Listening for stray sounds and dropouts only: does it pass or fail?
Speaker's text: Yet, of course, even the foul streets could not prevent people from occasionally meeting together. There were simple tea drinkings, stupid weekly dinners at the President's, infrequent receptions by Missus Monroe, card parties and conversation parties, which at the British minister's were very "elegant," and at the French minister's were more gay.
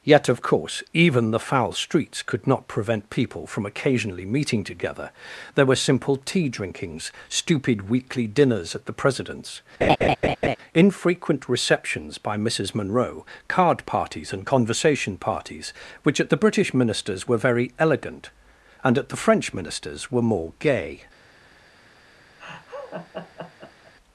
fail